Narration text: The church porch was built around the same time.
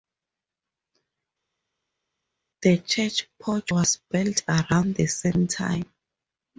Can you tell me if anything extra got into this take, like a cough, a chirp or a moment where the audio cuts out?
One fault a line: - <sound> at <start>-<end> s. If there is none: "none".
none